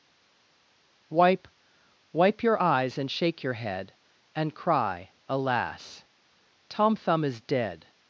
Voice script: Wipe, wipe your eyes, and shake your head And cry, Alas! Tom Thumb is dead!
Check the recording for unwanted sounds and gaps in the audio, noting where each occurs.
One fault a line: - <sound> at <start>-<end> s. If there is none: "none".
none